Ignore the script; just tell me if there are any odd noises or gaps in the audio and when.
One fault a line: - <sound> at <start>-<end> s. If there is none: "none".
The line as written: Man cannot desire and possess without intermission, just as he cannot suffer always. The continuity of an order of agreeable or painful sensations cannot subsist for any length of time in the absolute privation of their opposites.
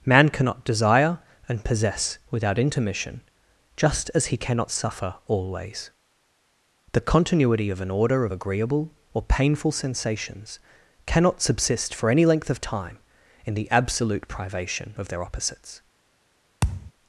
- thud at 16.6-16.9 s